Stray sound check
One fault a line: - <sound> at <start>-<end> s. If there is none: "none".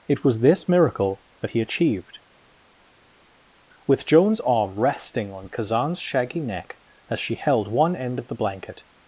none